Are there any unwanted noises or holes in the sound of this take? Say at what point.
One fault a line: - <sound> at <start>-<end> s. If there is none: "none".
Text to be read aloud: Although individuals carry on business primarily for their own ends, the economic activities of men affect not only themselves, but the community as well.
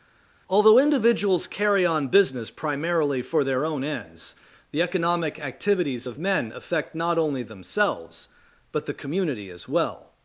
none